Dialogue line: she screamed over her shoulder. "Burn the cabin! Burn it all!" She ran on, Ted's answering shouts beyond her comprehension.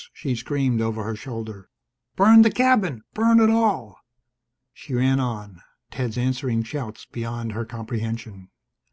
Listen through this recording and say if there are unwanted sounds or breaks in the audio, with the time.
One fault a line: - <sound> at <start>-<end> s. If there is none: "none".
none